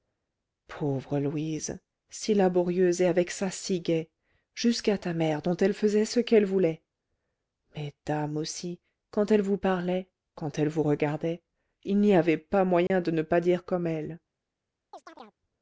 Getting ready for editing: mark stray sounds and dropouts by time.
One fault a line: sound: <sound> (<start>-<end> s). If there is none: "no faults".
sound: dropout (12.9-12.9 s)
sound: chirp (14.9-15.4 s)